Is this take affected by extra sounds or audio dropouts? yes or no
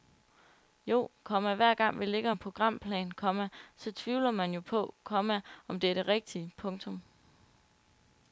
no